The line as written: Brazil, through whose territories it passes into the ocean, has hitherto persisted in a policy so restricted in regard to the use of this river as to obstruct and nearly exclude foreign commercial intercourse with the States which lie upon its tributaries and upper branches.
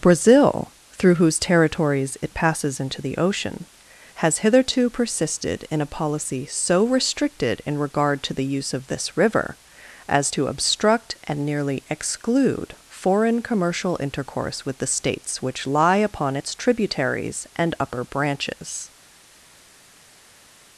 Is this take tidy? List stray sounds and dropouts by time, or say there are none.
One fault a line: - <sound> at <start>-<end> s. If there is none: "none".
none